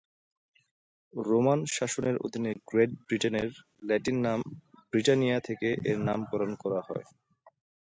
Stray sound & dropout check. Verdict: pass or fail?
pass